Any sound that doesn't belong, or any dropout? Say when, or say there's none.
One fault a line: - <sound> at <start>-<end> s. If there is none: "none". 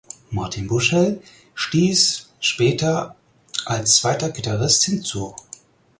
none